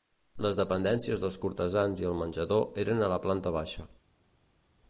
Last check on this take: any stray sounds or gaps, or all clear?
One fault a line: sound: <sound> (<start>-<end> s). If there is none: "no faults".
no faults